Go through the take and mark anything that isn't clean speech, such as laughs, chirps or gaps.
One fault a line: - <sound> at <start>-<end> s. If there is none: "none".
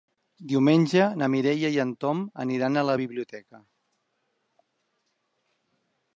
none